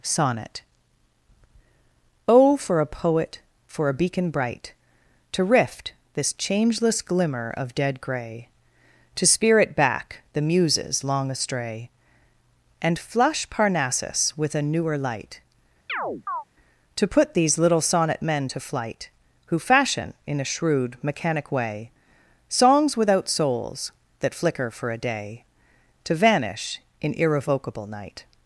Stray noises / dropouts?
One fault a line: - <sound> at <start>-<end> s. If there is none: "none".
- chirp at 15.9-16.4 s